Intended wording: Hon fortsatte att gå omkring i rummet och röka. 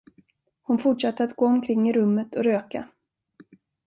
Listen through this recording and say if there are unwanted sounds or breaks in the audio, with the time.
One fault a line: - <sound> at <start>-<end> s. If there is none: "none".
none